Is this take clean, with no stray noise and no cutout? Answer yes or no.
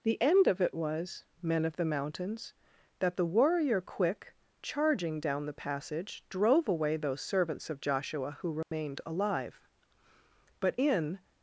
no